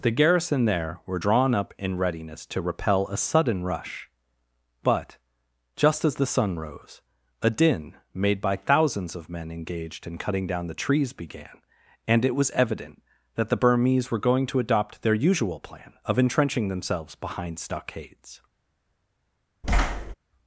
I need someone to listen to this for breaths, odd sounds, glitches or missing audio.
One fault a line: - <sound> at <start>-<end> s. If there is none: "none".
- thud at 19.6-20.1 s